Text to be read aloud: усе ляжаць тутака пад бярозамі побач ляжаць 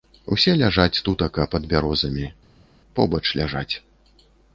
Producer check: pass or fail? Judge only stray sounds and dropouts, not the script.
pass